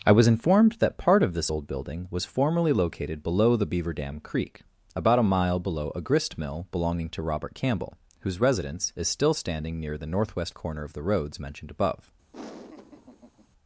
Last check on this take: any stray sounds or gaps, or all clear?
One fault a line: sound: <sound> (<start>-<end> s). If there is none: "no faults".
sound: laugh (12.3-13.5 s)